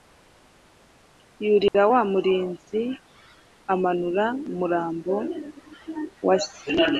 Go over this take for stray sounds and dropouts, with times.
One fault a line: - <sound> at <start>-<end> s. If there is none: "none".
- dropout at 1.7-1.7 s